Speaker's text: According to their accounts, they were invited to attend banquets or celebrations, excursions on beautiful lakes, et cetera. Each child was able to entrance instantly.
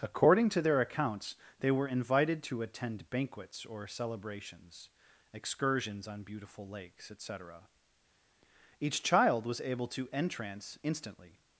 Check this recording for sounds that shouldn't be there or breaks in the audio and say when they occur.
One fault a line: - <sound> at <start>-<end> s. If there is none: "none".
none